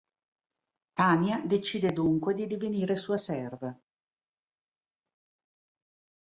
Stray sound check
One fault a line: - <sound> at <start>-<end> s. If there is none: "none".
none